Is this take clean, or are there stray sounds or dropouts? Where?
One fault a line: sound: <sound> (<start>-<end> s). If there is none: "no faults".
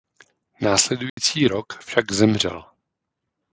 sound: dropout (1.1-1.2 s)